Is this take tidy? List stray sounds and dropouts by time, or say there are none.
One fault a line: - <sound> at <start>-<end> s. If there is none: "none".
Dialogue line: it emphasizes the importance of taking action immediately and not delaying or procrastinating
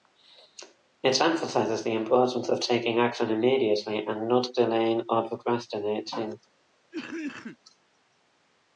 - cough at 6.9-7.6 s